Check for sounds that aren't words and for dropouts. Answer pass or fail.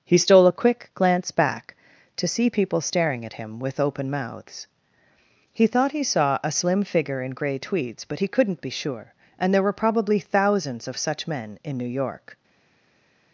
pass